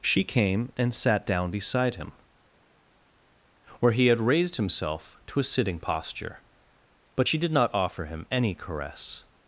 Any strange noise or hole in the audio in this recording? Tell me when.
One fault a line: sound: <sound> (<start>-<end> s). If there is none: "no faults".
no faults